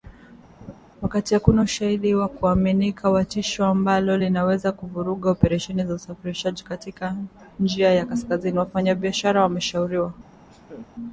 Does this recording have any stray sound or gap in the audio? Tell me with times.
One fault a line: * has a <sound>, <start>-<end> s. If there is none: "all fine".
* has a laugh, 0.6-0.7 s
* has a laugh, 10.5-10.9 s